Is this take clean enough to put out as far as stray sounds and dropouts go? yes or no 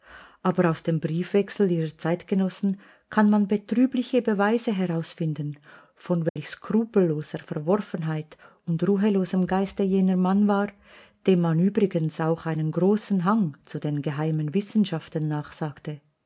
no